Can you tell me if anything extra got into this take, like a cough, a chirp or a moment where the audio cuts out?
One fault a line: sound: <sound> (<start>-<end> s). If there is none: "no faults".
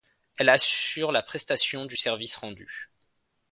no faults